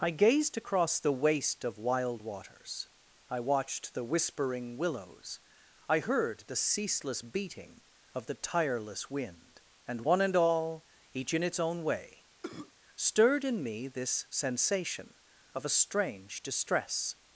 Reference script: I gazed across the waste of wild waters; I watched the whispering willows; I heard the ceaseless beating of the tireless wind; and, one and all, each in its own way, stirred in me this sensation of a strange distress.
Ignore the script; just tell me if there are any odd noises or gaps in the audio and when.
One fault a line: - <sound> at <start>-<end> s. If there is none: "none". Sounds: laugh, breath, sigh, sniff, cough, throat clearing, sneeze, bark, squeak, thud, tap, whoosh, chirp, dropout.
- cough at 12.4-12.7 s